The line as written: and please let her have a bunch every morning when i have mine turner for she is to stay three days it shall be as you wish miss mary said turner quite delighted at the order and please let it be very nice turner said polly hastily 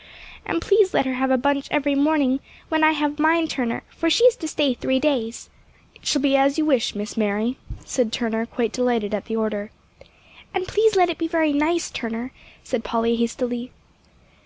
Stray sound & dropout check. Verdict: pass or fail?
pass